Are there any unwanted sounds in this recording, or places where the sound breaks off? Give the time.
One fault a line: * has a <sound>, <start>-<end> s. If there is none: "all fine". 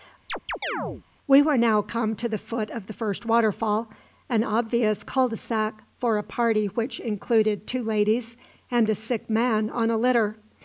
* has a chirp, 0.3-1.0 s